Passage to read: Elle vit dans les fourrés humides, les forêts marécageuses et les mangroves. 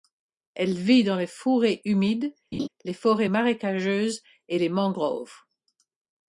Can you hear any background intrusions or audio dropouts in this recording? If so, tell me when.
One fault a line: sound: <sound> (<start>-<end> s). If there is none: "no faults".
sound: laugh (2.5-2.7 s)